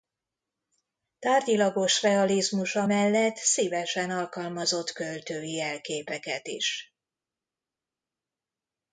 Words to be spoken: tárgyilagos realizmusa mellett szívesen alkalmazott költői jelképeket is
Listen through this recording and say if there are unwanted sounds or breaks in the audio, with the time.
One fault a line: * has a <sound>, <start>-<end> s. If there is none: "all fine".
all fine